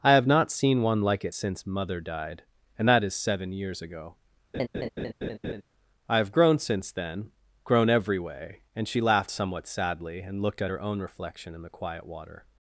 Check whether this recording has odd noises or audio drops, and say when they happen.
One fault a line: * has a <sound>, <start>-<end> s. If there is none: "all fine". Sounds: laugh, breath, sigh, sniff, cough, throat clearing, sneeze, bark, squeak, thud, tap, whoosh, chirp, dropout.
* has a laugh, 4.5-5.6 s